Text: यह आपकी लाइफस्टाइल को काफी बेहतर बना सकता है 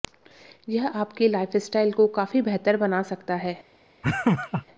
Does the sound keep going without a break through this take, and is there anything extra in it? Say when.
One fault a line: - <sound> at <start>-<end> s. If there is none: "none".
- laugh at 4.0-4.6 s